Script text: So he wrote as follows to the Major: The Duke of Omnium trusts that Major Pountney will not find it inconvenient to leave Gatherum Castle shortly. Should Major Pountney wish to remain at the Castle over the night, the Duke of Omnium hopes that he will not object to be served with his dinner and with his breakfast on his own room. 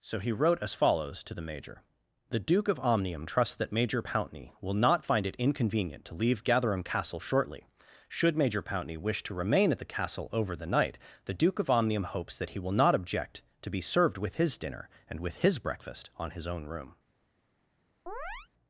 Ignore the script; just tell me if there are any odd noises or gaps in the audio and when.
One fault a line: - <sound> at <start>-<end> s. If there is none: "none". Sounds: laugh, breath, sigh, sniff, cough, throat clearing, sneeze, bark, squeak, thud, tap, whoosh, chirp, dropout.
- chirp at 18.1-18.5 s